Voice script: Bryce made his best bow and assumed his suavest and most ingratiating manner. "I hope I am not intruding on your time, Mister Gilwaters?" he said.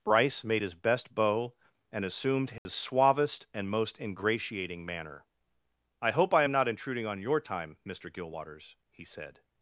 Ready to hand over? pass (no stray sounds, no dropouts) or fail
fail